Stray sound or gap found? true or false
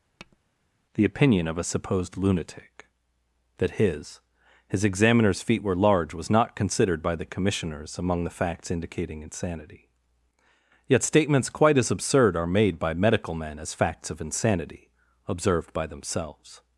true